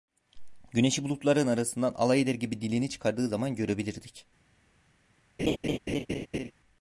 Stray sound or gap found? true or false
true